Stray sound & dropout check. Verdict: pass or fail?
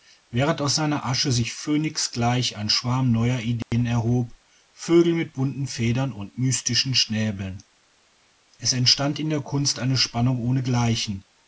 fail